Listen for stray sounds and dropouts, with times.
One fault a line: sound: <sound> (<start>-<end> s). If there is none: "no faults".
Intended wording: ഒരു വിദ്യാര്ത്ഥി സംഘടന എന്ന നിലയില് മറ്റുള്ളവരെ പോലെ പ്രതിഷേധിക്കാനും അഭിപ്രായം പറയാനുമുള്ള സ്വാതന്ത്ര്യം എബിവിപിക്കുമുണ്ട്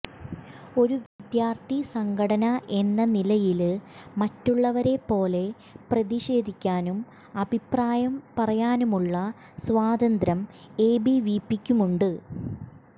sound: dropout (1.1-1.2 s)